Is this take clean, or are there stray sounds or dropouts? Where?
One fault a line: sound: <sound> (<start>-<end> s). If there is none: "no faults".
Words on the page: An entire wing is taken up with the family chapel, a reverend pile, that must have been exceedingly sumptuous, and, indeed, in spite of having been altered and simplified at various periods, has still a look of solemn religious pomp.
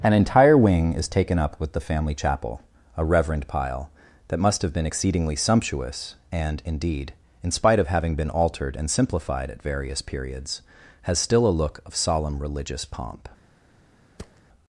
sound: thud (14.2-14.4 s)